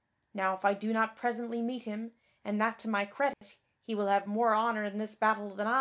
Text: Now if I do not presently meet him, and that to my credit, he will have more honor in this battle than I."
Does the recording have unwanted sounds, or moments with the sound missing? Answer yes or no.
yes